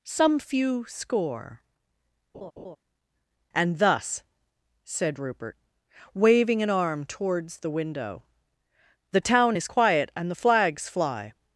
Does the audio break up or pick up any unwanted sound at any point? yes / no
yes